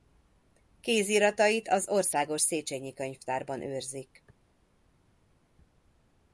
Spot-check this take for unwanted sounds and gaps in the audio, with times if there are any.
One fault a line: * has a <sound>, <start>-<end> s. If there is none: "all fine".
all fine